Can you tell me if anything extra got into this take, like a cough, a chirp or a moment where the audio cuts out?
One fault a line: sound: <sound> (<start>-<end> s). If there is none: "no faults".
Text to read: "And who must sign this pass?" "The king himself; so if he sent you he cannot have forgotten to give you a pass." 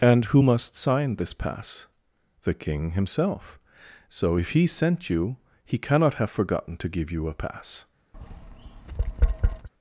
sound: tap (8.1-9.7 s)